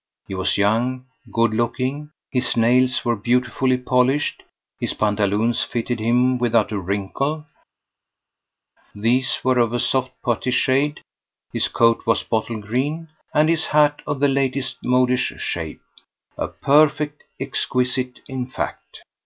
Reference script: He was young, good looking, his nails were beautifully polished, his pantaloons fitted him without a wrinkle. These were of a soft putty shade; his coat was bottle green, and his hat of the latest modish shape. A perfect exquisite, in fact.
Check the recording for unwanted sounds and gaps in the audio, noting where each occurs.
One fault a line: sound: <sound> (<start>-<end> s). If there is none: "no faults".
no faults